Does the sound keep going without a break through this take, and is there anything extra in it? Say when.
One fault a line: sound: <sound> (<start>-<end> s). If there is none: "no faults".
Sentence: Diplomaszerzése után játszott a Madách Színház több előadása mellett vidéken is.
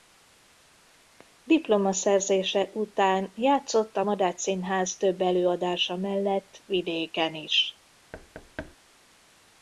sound: thud (8.1-8.8 s)